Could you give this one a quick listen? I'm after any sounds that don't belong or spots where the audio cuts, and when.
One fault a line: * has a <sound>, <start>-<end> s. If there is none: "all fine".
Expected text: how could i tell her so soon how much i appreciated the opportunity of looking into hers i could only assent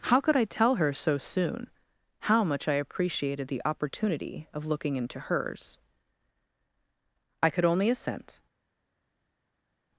all fine